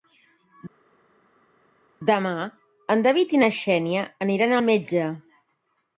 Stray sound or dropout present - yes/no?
no